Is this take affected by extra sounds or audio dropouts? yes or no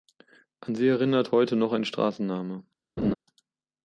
yes